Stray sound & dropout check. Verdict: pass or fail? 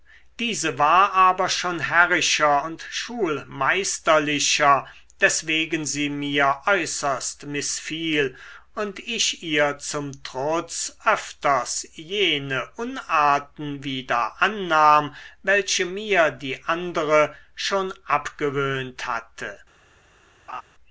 fail